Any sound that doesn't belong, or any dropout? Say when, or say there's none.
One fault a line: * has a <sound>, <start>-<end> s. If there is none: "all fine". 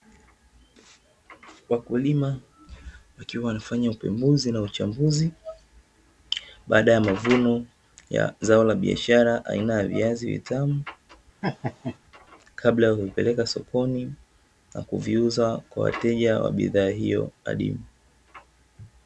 * has a laugh, 11.4-12.0 s